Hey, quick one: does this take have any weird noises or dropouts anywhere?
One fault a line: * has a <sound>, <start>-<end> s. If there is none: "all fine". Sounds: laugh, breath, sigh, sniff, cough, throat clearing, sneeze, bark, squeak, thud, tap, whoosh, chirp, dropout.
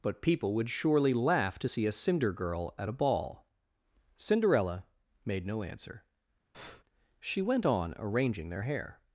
* has a breath, 6.5-6.8 s